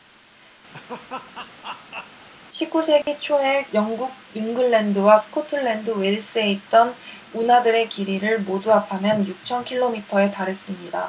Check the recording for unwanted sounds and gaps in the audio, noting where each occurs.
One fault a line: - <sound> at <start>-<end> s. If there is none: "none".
- laugh at 0.7-2.3 s
- dropout at 3.0-3.1 s